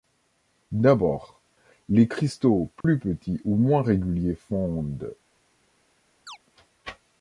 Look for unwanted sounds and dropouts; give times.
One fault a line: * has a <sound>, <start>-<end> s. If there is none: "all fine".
* has a dropout, 2.8-2.8 s
* has a chirp, 6.3-6.4 s